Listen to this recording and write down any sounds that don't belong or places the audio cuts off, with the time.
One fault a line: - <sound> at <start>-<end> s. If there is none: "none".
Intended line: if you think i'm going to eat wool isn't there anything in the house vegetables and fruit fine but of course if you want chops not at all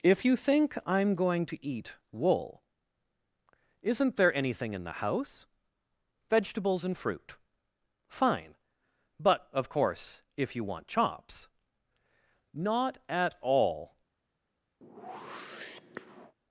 - whoosh at 14.8-16.3 s